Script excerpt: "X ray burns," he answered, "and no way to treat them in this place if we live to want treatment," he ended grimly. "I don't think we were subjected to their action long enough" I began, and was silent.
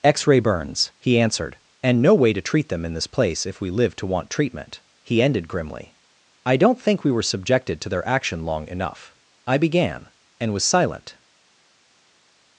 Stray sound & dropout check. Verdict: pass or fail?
pass